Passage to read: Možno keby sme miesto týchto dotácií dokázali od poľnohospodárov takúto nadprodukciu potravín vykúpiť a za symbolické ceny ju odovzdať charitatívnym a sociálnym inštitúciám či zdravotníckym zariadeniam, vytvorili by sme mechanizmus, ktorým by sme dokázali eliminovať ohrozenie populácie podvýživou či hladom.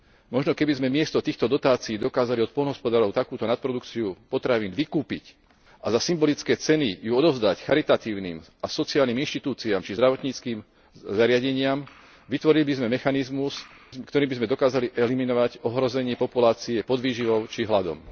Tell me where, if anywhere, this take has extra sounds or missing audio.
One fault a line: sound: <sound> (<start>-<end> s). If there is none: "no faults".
no faults